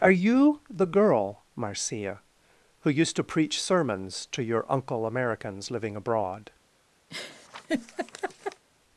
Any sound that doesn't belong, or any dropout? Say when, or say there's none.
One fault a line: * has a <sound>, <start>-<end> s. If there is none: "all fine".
* has a laugh, 7.1-8.6 s